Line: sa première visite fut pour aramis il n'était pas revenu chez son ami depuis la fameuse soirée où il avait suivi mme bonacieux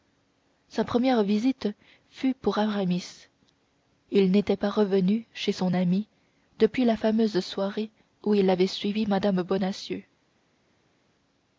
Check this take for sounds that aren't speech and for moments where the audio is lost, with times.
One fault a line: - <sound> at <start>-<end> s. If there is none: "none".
none